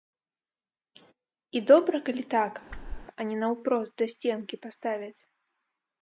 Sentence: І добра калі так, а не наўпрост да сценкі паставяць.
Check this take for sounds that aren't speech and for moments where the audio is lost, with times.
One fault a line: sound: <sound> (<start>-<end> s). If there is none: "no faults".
sound: whoosh (2.7-3.1 s)